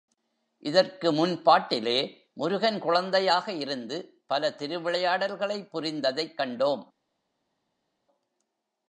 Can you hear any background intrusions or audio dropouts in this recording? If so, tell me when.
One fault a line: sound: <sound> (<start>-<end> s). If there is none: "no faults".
no faults